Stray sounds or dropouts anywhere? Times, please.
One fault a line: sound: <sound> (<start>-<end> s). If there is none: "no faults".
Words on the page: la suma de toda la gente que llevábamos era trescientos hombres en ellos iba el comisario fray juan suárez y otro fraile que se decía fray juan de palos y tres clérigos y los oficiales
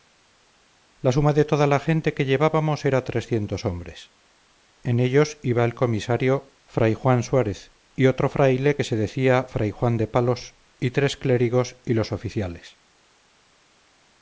no faults